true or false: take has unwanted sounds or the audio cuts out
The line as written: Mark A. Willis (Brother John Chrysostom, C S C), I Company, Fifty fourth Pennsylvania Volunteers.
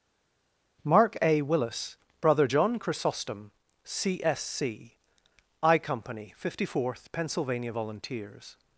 false